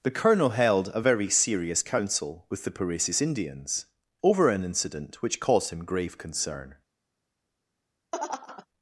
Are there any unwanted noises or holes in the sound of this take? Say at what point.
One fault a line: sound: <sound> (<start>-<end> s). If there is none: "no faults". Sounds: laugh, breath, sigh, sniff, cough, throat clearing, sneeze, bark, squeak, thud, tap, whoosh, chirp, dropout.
sound: laugh (8.1-8.7 s)